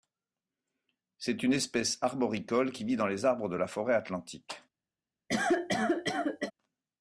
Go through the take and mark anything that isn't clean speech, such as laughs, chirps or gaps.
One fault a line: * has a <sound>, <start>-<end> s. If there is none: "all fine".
* has a cough, 5.3-6.5 s